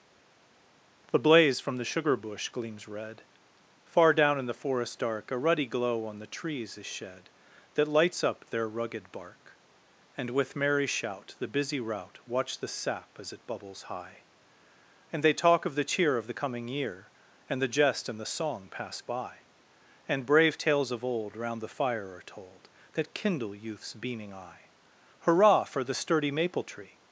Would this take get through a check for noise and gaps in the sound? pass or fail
pass